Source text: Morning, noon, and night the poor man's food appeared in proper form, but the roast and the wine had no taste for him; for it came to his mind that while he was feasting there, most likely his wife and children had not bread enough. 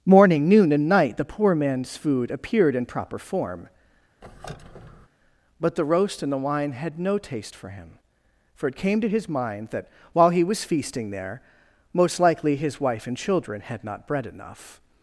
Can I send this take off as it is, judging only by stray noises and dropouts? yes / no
no